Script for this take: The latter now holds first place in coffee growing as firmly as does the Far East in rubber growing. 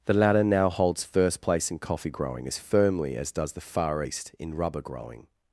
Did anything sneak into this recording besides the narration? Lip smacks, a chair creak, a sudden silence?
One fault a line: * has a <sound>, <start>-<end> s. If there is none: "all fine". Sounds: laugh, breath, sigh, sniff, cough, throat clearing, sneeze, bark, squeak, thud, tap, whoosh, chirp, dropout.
all fine